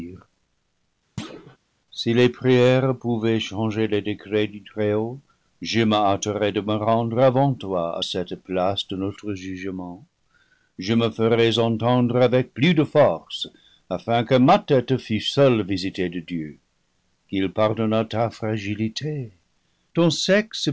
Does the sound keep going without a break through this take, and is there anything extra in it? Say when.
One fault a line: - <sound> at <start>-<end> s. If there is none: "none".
- thud at 1.2-1.6 s